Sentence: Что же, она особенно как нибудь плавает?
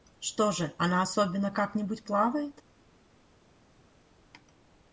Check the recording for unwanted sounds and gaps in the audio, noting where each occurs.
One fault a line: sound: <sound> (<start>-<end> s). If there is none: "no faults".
no faults